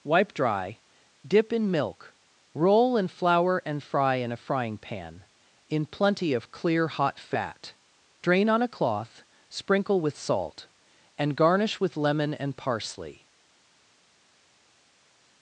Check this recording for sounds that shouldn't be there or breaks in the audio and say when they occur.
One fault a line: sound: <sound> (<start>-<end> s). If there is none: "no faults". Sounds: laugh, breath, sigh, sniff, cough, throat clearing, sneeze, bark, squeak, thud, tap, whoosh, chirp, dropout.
no faults